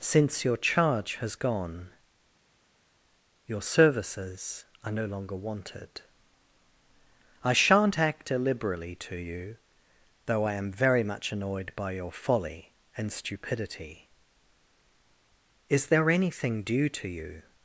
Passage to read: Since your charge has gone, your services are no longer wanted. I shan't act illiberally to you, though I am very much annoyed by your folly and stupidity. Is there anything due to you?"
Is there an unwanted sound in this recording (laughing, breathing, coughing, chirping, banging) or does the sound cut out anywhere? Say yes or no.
no